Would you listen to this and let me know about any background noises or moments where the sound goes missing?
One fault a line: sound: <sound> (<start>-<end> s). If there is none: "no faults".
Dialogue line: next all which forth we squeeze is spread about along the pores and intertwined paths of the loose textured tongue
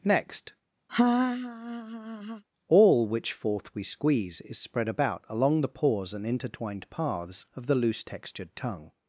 sound: laugh (0.9-2.4 s)